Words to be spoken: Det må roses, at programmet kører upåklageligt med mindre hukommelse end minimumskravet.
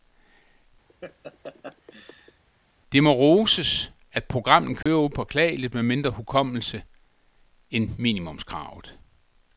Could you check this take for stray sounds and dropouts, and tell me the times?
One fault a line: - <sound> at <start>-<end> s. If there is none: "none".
- laugh at 0.9-2.4 s
- dropout at 4.8-4.9 s